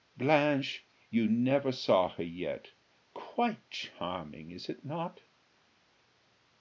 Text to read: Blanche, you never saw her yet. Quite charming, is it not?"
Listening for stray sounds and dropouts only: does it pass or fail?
pass